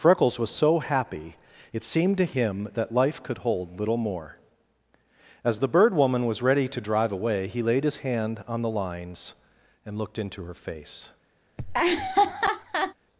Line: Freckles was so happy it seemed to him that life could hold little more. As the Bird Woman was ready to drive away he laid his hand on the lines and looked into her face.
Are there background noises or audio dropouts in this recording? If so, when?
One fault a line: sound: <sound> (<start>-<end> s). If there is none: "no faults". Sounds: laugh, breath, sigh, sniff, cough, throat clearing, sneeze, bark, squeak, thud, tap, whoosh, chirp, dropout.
sound: laugh (11.6-12.9 s)